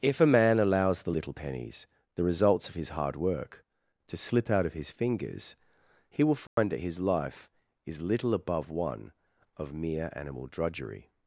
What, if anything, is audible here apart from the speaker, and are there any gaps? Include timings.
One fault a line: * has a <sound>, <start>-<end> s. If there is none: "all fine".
* has a dropout, 6.5-6.6 s